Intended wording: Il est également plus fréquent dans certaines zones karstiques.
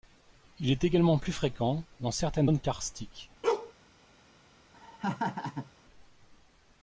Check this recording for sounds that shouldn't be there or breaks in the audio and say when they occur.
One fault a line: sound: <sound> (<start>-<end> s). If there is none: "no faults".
sound: bark (3.4-3.7 s)
sound: laugh (4.7-5.7 s)